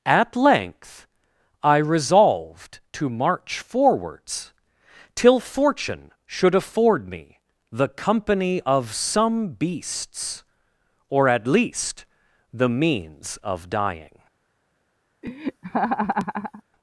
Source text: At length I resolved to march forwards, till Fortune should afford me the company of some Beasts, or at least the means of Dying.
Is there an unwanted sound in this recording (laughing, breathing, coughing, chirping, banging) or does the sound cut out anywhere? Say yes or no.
yes